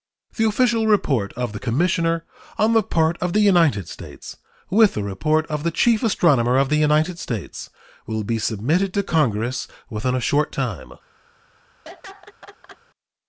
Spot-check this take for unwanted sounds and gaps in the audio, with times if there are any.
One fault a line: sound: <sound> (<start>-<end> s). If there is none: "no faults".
sound: laugh (11.8-12.8 s)